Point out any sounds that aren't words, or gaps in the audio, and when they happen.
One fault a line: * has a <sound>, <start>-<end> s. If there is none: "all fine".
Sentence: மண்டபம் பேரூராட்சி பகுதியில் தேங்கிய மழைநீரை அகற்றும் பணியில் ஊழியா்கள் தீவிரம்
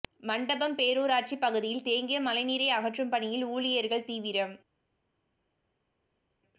all fine